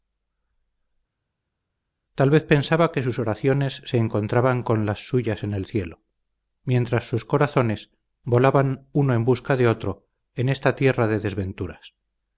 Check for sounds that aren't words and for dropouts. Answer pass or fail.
pass